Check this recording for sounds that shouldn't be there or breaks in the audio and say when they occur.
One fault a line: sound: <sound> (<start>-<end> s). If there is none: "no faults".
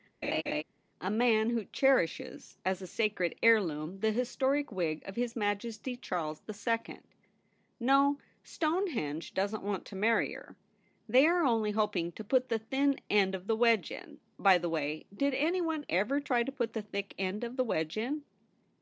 sound: laugh (0.2-0.6 s)